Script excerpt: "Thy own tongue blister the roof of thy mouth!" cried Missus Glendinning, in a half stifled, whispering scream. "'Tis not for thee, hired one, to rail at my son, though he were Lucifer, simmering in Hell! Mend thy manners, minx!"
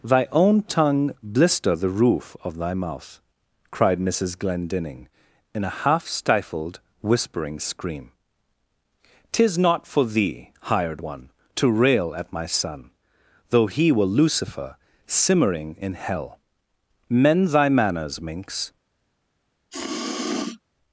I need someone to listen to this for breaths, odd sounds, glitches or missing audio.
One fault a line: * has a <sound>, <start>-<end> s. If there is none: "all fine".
* has a sniff, 19.7-20.6 s